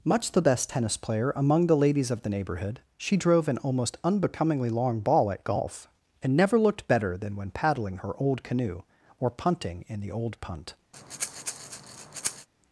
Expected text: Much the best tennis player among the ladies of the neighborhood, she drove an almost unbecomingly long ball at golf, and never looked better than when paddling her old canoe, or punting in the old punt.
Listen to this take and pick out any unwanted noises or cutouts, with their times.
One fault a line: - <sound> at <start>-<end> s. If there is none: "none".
- breath at 10.9-12.5 s